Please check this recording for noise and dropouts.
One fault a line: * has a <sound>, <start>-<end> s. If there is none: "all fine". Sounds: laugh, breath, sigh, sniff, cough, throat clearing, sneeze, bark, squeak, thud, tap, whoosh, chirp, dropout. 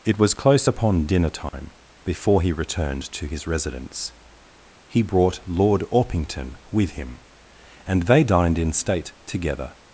* has a dropout, 1.5-1.5 s